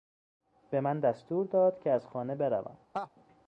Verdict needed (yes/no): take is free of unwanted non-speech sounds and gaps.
no